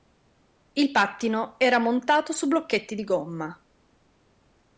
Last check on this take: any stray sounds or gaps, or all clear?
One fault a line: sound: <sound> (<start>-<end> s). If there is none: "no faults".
no faults